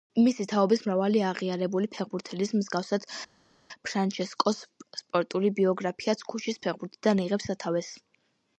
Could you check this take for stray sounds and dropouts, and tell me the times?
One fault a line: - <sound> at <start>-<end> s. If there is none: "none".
none